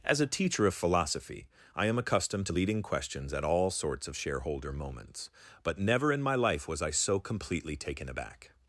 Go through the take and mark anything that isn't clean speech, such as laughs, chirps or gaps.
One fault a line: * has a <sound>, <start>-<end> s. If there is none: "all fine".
all fine